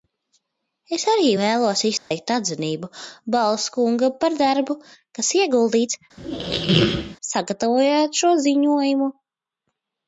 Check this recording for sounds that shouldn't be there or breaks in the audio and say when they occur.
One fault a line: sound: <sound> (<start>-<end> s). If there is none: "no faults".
sound: dropout (2.0-2.1 s)
sound: squeak (6.2-7.2 s)